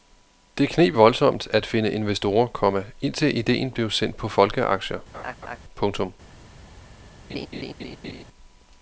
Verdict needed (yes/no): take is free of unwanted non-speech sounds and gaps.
no